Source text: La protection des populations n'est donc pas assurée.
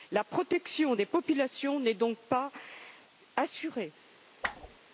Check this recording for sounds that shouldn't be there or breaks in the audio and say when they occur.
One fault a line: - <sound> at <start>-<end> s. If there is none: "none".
- whoosh at 4.4-4.8 s